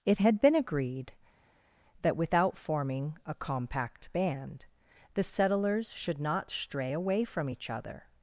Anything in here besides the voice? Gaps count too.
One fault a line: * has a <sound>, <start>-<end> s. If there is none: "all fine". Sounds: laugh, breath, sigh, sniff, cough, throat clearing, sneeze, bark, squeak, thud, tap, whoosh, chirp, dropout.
all fine